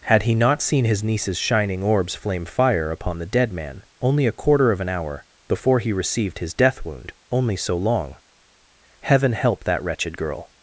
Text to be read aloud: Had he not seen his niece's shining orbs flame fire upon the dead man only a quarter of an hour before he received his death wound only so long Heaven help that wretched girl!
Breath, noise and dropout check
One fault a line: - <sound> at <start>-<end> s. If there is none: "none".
none